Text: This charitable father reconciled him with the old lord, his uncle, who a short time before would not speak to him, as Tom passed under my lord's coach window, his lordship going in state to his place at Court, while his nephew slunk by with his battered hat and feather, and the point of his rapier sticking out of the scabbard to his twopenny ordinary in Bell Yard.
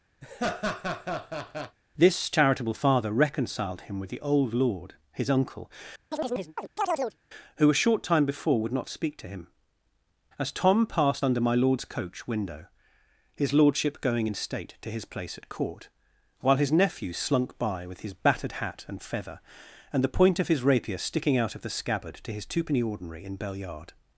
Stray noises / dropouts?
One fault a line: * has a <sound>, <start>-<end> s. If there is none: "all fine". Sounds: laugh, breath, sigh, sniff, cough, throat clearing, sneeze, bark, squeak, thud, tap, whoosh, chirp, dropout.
* has a laugh, 0.2-1.8 s
* has a chirp, 6.1-7.2 s